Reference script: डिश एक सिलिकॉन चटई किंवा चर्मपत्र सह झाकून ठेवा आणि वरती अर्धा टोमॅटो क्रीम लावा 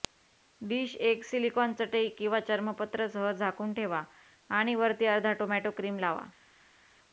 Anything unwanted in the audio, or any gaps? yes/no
no